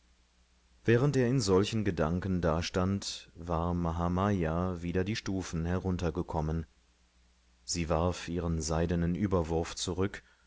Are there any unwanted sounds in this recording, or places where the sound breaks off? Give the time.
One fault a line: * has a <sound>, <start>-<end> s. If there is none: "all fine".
all fine